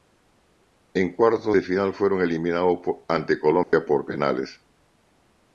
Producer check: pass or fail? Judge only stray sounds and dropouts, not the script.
fail